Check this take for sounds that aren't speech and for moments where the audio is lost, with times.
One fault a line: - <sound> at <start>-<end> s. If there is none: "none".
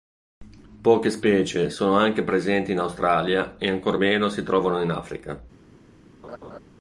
- laugh at 6.2-6.6 s